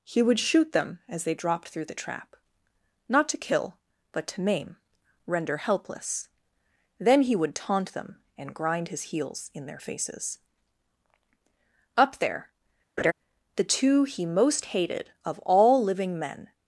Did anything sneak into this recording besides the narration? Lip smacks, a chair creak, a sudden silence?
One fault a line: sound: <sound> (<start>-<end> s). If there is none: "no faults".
sound: laugh (13.0-13.1 s)